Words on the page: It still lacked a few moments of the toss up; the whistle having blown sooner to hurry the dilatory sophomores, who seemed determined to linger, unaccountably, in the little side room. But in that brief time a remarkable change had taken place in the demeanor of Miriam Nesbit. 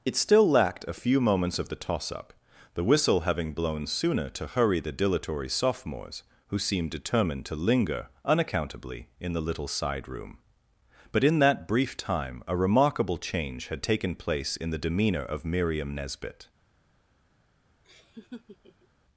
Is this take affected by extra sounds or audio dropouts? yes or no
yes